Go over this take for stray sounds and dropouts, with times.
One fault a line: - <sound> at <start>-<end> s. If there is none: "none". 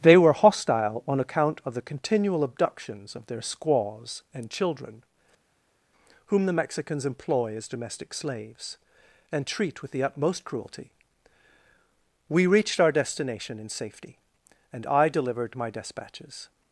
none